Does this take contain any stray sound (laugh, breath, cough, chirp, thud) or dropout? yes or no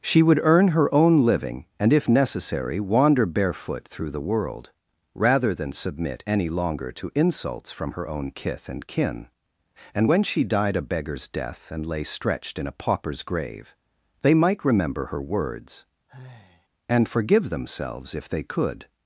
yes